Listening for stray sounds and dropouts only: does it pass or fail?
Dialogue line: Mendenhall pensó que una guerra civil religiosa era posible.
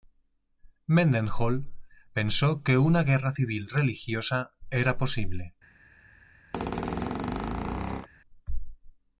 fail